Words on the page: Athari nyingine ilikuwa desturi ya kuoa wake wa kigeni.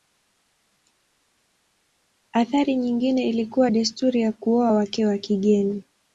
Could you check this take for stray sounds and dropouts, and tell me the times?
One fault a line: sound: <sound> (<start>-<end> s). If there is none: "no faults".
no faults